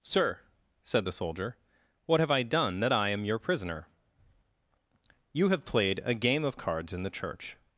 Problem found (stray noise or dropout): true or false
false